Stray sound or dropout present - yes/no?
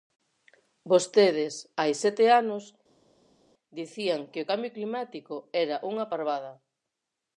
no